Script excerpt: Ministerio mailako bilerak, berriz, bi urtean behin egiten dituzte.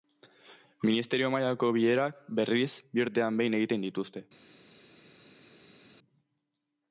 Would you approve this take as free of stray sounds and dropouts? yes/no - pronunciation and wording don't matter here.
yes